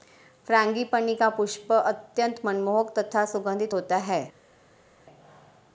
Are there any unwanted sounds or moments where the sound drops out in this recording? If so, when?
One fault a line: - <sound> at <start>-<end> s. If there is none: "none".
none